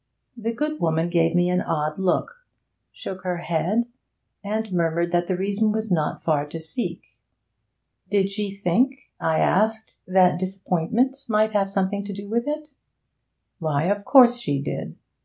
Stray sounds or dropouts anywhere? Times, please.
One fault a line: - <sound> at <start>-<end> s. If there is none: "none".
none